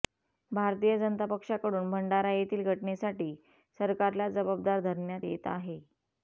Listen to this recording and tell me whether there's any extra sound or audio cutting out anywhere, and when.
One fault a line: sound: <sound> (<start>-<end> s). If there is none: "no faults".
no faults